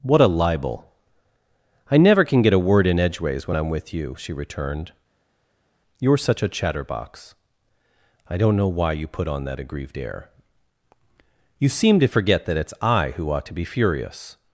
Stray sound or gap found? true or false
false